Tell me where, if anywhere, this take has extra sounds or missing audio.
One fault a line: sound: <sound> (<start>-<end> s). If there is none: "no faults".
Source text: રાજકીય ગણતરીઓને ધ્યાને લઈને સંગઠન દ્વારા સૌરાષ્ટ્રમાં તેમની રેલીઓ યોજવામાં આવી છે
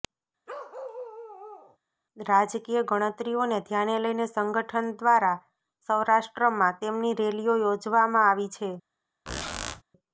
sound: bark (0.5-1.8 s)
sound: squeak (9.3-9.8 s)